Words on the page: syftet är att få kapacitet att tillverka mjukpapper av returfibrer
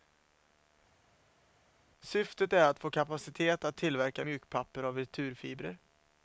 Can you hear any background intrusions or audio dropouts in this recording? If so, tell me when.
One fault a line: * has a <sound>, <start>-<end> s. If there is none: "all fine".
all fine